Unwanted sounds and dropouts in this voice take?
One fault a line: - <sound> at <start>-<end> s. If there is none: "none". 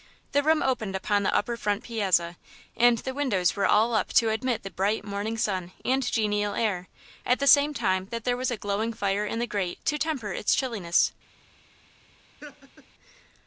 - laugh at 12.4-12.9 s